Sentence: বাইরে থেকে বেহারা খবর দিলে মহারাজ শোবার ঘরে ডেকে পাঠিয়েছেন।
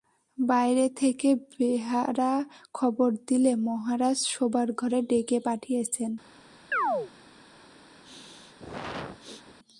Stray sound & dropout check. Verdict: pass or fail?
fail